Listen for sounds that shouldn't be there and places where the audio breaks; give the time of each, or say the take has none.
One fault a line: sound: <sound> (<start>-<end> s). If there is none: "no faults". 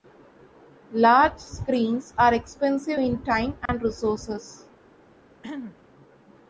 sound: dropout (3.7-3.7 s)
sound: throat clearing (5.4-5.8 s)